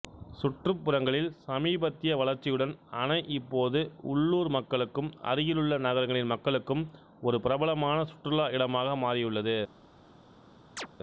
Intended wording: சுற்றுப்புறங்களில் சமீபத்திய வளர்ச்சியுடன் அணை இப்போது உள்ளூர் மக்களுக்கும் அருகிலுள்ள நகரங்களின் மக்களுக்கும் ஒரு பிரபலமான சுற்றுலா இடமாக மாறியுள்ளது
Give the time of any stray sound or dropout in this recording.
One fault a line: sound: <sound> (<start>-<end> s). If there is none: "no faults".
sound: chirp (10.8-10.9 s)